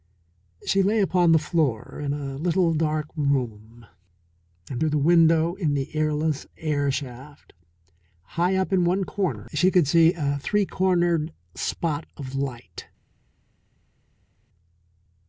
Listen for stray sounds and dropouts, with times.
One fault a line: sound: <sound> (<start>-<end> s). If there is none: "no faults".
no faults